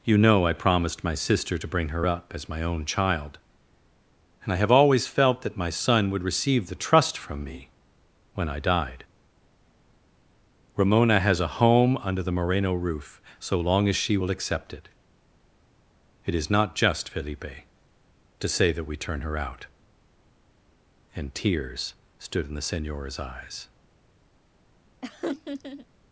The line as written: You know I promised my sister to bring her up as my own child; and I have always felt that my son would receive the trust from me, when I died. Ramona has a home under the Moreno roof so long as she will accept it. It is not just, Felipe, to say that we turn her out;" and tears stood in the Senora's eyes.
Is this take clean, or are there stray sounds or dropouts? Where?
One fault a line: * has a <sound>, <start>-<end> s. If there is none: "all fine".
* has a laugh, 25.0-25.9 s